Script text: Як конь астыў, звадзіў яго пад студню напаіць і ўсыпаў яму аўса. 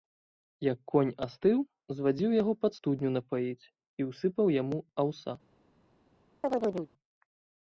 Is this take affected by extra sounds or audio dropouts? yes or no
yes